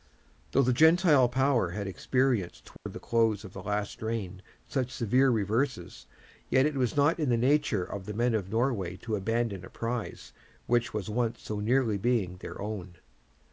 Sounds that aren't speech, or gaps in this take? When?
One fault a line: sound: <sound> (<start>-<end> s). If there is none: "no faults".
sound: dropout (2.8-2.9 s)